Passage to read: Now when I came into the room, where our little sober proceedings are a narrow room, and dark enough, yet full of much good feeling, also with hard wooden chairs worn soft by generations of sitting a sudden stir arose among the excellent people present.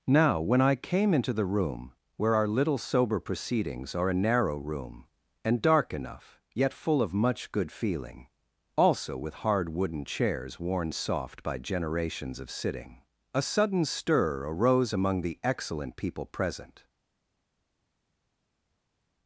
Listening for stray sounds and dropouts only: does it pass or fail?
pass